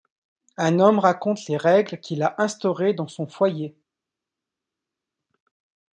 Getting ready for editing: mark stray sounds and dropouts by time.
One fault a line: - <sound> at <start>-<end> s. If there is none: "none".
none